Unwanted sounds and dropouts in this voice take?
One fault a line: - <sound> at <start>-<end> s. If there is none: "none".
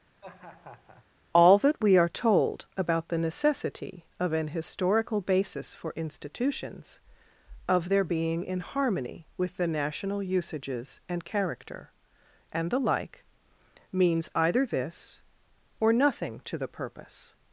- laugh at 0.2-1.1 s